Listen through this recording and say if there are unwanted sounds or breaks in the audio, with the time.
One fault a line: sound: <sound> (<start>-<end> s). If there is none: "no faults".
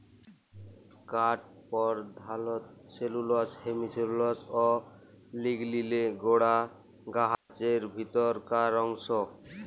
sound: dropout (7.3-7.5 s)